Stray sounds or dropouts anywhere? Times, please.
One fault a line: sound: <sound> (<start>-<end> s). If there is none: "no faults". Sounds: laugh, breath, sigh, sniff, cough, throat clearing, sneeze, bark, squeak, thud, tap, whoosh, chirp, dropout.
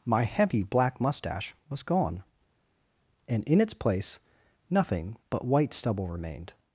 no faults